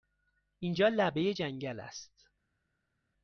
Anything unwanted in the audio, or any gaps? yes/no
no